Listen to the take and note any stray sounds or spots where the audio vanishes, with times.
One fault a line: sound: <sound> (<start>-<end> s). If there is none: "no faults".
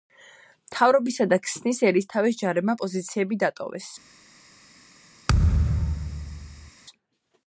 sound: thud (5.3-6.7 s)